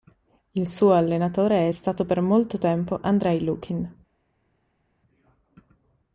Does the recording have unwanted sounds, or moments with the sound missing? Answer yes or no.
no